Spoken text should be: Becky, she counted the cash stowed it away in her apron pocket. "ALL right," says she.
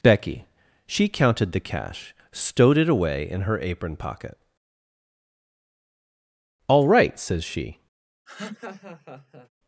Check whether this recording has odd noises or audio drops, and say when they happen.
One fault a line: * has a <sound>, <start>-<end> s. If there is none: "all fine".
* has a laugh, 8.3-9.5 s